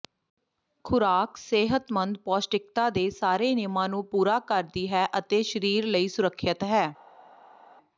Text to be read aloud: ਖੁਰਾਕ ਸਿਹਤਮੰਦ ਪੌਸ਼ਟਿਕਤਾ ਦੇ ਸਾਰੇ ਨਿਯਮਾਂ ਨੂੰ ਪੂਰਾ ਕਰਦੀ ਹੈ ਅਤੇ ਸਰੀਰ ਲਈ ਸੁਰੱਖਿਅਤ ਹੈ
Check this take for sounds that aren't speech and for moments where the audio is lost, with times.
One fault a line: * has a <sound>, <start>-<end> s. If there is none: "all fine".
all fine